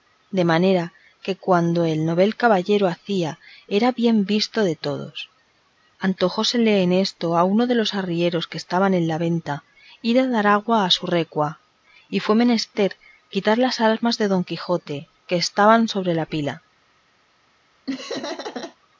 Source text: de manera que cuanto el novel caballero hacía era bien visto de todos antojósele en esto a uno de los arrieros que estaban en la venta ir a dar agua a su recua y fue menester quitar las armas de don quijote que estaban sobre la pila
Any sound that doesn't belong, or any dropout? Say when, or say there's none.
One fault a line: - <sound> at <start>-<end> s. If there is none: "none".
- laugh at 17.9-18.8 s